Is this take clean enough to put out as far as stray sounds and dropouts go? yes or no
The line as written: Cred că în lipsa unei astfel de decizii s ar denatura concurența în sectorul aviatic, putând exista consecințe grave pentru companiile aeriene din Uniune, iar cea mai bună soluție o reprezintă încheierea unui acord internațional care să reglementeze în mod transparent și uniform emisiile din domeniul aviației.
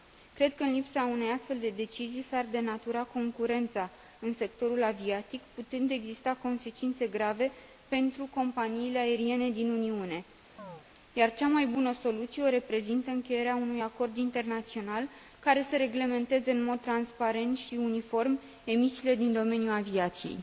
no